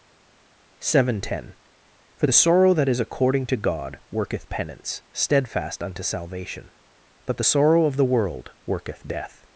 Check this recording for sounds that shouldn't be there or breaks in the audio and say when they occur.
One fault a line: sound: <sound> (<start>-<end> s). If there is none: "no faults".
no faults